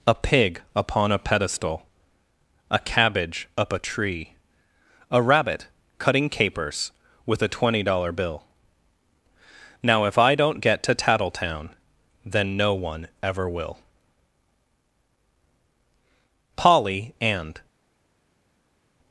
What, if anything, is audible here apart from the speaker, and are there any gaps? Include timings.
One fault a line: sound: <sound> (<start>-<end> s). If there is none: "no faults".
no faults